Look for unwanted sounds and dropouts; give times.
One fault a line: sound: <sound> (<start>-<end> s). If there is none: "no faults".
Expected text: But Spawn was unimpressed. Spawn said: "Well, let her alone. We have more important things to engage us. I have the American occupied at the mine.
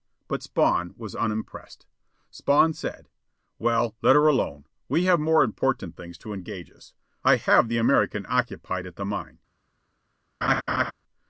sound: laugh (10.4-10.9 s)